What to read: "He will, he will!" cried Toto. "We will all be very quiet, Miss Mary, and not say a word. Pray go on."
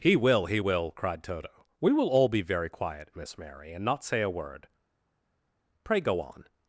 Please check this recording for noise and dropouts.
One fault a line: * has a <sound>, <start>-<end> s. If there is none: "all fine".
all fine